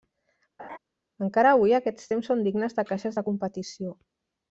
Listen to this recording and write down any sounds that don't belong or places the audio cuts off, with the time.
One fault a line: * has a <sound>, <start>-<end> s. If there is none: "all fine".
* has a laugh, 0.6-0.8 s